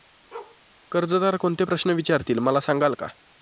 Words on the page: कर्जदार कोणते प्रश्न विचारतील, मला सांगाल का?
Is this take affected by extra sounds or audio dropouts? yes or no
yes